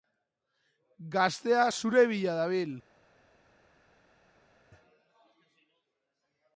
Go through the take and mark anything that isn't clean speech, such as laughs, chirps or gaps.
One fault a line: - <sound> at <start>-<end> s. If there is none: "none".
none